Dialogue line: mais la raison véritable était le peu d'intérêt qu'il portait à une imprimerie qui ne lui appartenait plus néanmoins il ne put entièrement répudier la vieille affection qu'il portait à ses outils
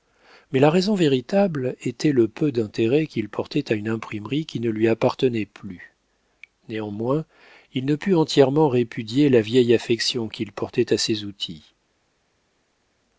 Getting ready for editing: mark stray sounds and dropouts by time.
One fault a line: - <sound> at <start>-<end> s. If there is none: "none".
none